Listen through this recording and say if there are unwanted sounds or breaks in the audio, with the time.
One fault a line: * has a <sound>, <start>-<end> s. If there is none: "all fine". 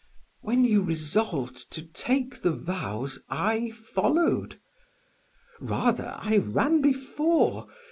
all fine